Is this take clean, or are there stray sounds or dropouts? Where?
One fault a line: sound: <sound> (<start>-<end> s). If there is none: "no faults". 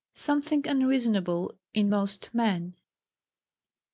no faults